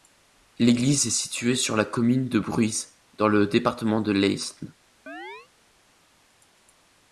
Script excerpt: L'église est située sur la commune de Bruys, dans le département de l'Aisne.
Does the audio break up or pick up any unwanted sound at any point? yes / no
yes